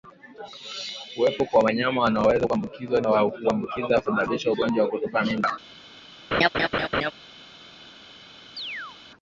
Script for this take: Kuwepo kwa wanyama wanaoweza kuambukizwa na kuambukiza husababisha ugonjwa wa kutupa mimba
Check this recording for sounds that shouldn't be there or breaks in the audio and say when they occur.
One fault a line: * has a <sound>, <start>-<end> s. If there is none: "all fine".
* has a laugh, 6.3-7.1 s
* has a chirp, 8.6-9.0 s